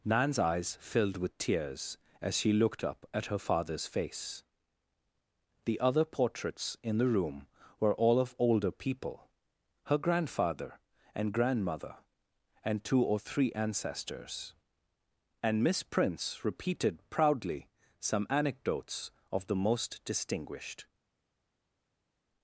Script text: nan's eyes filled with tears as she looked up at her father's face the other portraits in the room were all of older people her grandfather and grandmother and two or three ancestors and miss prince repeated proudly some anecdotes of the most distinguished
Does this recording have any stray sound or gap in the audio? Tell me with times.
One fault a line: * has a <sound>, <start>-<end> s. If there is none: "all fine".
all fine